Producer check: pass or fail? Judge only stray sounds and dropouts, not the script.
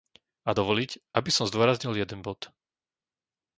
pass